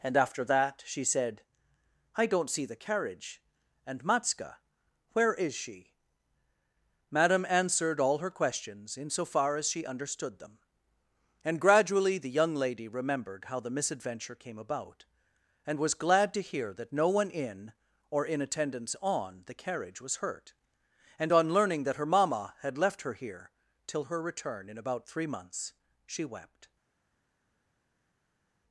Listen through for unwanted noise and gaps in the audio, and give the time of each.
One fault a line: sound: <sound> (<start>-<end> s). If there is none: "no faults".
no faults